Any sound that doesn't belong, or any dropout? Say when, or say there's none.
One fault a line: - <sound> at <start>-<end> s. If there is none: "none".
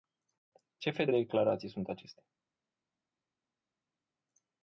none